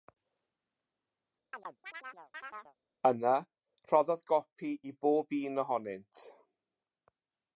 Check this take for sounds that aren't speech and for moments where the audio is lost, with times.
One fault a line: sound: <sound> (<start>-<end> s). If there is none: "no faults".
sound: chirp (1.5-2.8 s)